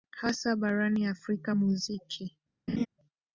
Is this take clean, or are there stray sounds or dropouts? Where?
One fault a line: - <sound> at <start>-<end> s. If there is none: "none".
- laugh at 2.7-2.9 s